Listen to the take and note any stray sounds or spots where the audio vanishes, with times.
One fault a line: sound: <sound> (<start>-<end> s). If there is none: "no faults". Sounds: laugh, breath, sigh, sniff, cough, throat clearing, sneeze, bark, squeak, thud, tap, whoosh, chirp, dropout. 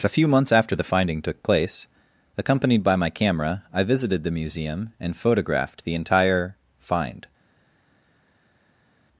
no faults